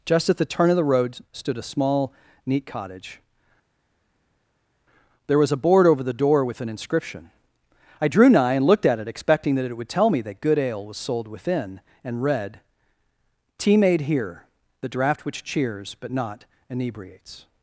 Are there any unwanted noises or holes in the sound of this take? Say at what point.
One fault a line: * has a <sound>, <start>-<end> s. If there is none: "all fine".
all fine